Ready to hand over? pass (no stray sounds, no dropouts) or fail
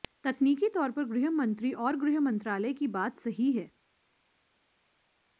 pass